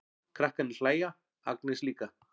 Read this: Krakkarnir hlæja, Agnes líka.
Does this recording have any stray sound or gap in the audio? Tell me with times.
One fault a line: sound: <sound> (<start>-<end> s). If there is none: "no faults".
no faults